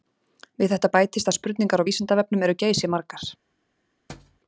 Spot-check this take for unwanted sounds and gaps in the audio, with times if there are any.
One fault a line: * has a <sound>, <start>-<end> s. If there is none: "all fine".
* has a thud, 4.1-4.4 s